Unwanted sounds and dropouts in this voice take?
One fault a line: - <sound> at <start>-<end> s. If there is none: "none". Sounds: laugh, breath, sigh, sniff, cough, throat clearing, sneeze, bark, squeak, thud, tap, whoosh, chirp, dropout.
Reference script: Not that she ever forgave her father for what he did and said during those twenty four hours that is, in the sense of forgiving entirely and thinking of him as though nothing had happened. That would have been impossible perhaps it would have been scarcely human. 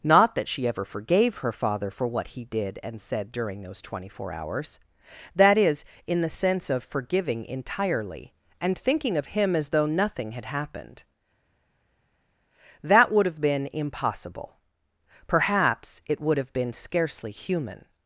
none